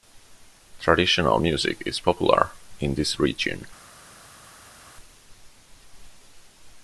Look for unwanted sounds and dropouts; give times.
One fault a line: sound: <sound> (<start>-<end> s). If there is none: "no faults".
no faults